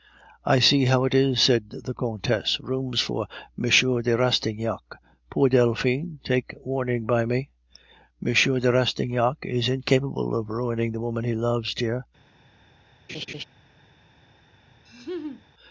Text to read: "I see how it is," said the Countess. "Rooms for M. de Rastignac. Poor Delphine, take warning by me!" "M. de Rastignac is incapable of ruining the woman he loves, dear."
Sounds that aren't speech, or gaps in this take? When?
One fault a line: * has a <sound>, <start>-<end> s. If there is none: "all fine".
* has a laugh, 13.1-13.4 s
* has a laugh, 14.9-15.4 s